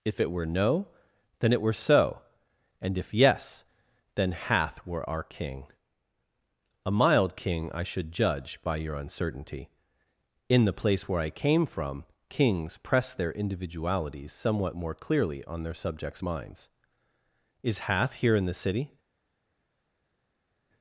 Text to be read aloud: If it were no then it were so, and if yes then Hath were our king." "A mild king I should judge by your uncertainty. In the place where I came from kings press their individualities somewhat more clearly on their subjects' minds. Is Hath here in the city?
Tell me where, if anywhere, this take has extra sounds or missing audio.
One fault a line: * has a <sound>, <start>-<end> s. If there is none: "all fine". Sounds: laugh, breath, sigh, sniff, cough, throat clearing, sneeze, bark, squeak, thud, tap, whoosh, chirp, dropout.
all fine